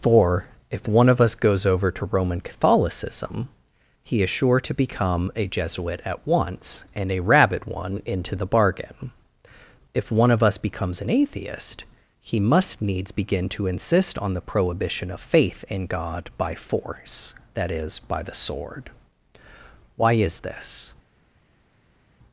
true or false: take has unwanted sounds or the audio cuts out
false